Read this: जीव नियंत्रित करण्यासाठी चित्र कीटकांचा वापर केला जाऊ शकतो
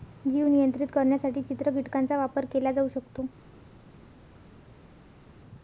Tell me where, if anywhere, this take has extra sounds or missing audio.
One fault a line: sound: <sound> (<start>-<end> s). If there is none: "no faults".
no faults